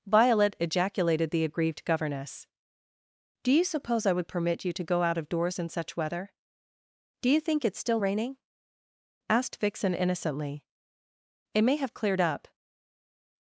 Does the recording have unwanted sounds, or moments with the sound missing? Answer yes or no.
no